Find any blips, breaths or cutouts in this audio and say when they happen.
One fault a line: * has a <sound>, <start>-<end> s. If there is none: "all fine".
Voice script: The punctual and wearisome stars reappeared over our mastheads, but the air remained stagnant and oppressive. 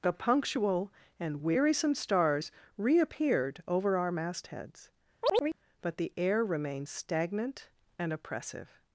* has a chirp, 5.2-5.6 s